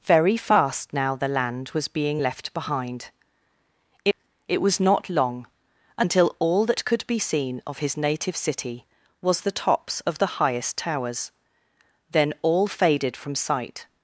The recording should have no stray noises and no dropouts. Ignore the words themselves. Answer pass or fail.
pass